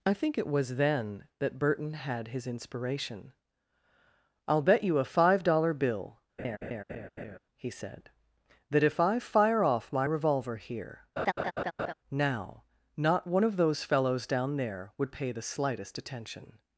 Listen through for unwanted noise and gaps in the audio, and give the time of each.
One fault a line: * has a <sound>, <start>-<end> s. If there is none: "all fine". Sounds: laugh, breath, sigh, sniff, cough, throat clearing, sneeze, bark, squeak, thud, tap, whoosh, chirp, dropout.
* has a laugh, 6.4-7.4 s
* has a laugh, 11.2-11.9 s